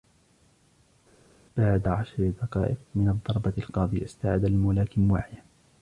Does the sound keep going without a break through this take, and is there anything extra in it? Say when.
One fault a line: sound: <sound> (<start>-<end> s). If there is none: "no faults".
no faults